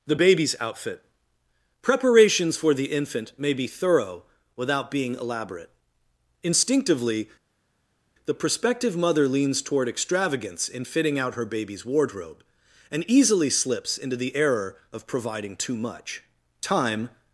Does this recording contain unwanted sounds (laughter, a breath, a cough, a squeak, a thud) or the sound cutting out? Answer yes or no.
no